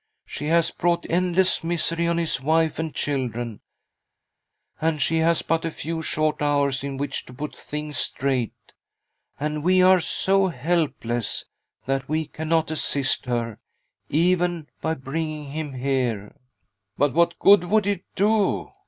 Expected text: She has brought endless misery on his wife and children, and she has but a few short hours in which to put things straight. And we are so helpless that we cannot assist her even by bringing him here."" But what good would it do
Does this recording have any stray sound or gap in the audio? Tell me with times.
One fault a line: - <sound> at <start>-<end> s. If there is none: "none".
none